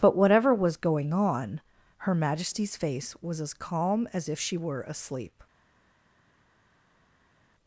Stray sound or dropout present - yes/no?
no